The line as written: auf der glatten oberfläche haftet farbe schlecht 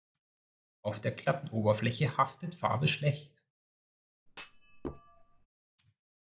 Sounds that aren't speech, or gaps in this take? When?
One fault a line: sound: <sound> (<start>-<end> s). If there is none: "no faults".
sound: thud (4.3-5.5 s)